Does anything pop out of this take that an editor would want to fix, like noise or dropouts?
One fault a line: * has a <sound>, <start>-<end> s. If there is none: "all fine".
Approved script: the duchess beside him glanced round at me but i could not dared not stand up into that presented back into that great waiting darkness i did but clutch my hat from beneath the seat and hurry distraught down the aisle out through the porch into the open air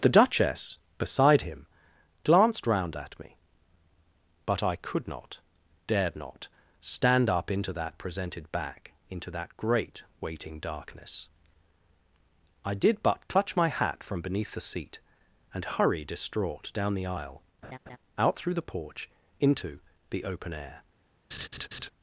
* has a laugh, 17.6-18.0 s
* has a laugh, 21.3-21.9 s